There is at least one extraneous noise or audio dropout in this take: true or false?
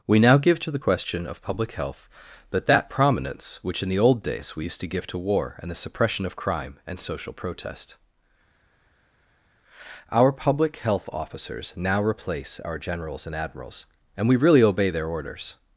false